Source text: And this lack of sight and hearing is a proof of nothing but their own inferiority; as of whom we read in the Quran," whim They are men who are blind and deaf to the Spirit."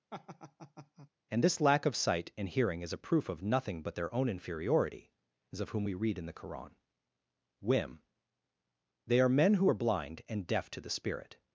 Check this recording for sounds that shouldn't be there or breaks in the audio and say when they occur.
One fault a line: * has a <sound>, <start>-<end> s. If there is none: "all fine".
* has a laugh, 0.1-1.1 s